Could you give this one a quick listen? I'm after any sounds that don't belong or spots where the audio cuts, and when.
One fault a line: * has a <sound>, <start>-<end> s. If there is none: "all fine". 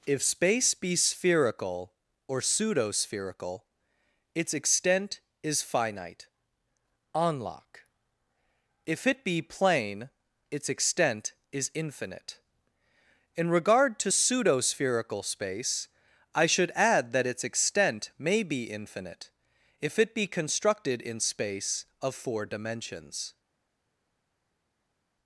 all fine